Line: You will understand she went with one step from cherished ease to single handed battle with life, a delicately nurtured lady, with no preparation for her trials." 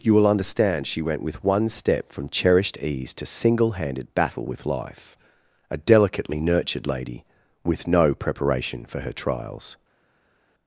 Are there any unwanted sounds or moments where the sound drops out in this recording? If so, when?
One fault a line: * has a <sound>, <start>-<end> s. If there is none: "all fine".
all fine